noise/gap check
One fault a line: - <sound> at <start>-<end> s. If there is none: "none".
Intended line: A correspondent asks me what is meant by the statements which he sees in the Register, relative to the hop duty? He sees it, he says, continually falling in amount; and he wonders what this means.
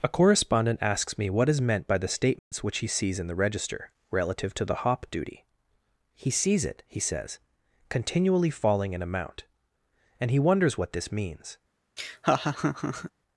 - dropout at 2.4-2.5 s
- laugh at 12.0-13.1 s